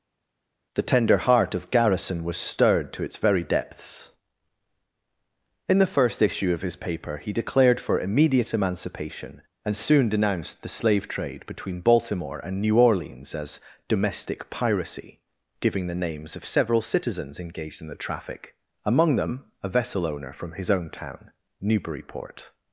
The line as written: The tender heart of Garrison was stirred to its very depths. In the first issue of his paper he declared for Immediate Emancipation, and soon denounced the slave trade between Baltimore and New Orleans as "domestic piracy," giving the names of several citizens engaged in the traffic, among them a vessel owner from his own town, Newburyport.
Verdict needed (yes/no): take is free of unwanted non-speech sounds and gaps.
yes